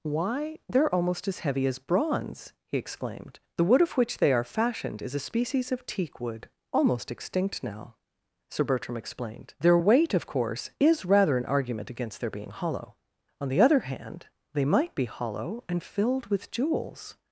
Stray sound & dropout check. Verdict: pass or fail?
pass